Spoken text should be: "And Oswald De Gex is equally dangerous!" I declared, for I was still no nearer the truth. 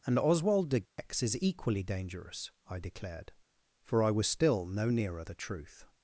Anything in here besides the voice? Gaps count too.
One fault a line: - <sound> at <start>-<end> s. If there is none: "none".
- dropout at 0.9-1.0 s